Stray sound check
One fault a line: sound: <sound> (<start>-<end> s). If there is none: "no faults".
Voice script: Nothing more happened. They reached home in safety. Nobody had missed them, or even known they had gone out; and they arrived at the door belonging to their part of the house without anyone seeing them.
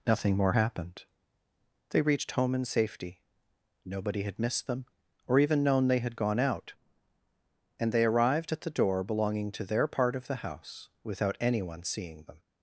no faults